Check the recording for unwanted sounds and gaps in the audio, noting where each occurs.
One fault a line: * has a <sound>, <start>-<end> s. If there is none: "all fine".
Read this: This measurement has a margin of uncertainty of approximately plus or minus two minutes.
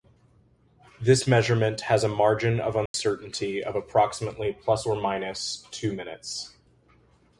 * has a dropout, 2.9-2.9 s